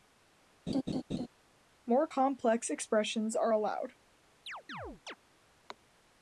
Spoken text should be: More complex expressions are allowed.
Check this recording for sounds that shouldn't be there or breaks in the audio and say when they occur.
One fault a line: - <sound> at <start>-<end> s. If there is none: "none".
- laugh at 0.7-1.3 s
- chirp at 4.5-5.2 s